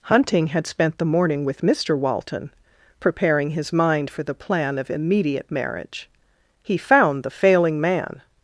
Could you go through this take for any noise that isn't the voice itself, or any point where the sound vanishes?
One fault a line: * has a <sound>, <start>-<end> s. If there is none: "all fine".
all fine